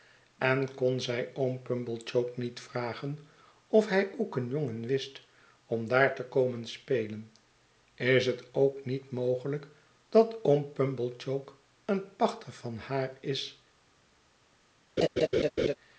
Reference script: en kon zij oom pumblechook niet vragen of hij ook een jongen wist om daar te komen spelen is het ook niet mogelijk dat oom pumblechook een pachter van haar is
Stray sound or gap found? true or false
true